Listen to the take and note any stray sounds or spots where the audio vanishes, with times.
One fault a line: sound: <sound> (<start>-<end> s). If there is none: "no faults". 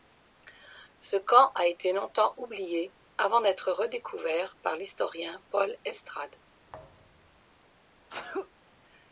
sound: thud (6.7-7.5 s)
sound: sneeze (8.1-8.5 s)